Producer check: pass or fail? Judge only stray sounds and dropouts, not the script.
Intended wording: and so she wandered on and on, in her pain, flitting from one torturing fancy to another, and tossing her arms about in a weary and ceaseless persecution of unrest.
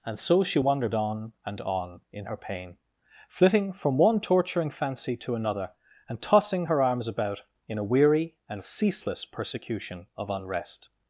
pass